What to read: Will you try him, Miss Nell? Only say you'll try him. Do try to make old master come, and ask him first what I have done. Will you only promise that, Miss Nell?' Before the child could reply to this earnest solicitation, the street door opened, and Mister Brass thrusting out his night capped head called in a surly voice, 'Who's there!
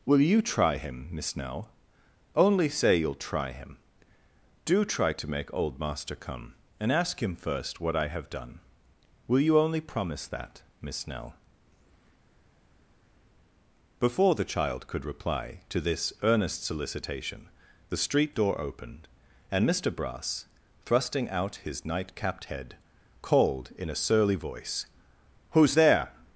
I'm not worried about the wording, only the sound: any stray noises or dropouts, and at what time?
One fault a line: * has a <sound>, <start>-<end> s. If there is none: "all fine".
all fine